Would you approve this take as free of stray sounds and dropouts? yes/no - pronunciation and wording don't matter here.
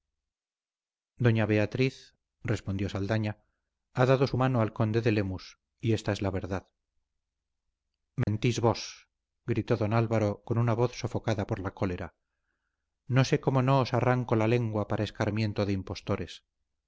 no